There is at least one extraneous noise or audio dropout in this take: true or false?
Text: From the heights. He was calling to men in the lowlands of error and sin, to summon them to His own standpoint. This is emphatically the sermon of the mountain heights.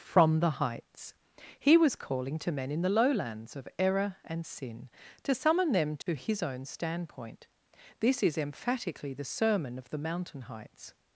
true